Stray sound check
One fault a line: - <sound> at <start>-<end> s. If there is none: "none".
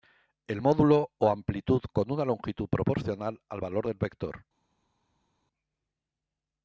none